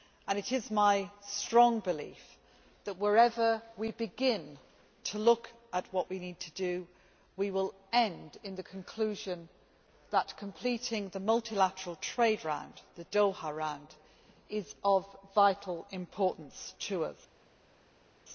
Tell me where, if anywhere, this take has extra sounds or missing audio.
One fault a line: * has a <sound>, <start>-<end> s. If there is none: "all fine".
all fine